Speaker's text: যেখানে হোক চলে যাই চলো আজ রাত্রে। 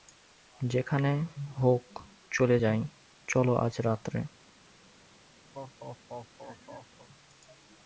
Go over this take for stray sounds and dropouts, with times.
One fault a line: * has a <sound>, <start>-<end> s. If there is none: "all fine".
* has a laugh, 5.5-7.1 s